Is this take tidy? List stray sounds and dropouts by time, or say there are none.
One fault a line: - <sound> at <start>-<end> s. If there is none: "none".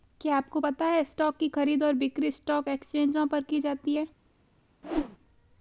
- whoosh at 4.8-5.2 s